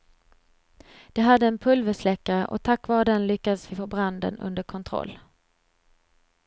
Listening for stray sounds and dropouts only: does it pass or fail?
pass